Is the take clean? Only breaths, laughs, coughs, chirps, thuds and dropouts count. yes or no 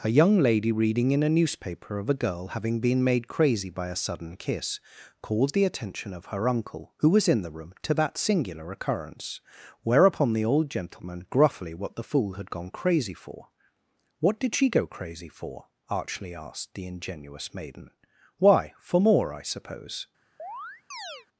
no